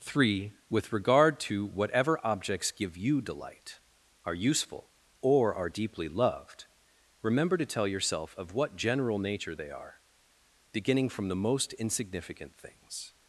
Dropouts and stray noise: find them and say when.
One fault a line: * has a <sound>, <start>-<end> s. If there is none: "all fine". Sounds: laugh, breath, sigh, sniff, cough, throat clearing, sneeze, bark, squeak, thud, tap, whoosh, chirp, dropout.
all fine